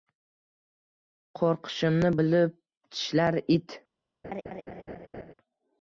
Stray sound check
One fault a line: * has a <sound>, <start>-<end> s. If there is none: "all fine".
* has a laugh, 4.2-5.3 s